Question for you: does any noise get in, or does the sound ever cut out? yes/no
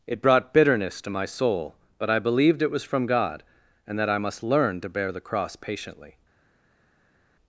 no